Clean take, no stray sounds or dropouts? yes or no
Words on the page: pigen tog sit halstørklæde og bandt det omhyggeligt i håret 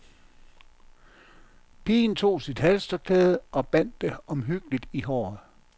yes